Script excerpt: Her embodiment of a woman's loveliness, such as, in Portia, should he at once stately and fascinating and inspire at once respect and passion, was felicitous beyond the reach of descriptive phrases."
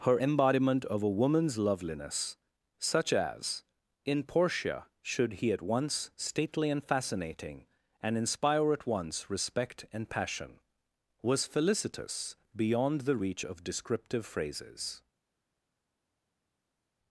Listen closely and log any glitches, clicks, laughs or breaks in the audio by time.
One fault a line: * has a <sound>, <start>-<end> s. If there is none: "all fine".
all fine